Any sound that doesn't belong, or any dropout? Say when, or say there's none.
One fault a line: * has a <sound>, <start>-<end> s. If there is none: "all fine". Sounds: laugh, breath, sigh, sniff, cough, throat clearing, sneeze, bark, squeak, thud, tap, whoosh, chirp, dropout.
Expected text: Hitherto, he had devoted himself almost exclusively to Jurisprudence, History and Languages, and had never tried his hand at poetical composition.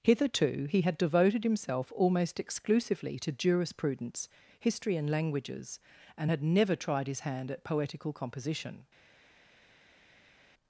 all fine